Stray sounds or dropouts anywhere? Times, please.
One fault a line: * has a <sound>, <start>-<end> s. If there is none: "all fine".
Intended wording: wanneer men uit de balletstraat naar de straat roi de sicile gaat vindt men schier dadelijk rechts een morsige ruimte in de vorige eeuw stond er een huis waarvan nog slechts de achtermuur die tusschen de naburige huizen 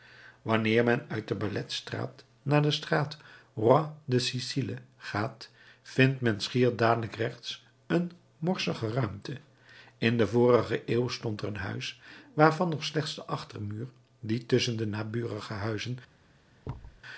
* has a thud, 16.6-17.0 s